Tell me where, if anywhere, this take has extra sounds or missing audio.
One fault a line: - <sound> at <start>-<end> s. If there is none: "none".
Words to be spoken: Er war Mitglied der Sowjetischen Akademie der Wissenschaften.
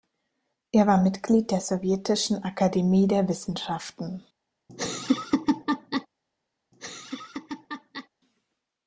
- laugh at 4.7-6.1 s
- laugh at 6.7-8.1 s